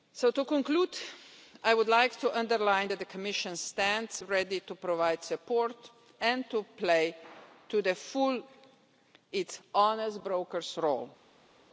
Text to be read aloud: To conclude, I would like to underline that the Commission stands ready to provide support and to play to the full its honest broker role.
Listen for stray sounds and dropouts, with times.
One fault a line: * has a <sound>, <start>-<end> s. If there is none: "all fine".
all fine